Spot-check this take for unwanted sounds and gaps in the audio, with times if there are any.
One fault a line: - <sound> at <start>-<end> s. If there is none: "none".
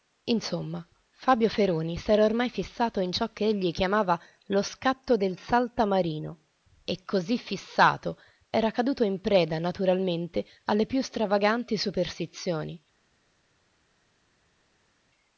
none